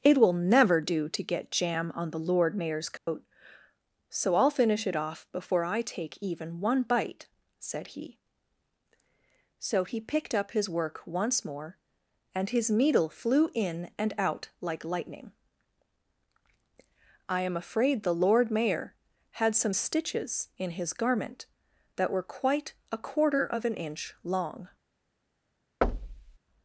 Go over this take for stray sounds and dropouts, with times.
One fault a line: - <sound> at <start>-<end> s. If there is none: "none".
- dropout at 3.0-3.1 s
- thud at 25.8-26.4 s